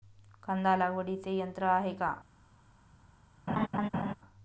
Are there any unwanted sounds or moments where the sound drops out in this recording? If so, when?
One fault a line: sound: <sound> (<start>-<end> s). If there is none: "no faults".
sound: laugh (3.5-4.1 s)